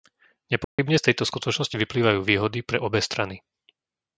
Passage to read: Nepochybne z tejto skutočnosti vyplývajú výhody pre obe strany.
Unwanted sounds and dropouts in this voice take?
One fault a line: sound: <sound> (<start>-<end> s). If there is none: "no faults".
sound: dropout (0.6-0.8 s)